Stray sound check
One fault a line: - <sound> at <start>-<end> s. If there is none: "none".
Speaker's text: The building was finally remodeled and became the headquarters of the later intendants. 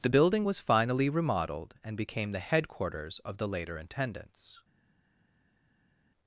none